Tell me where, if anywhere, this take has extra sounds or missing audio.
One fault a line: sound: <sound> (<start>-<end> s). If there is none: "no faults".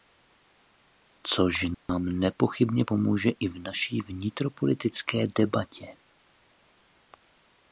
sound: dropout (1.7-1.9 s)